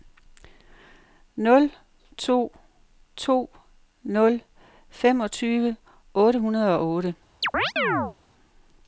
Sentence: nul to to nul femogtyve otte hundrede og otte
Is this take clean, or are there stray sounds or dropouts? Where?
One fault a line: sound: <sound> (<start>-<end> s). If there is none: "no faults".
sound: chirp (7.4-8.1 s)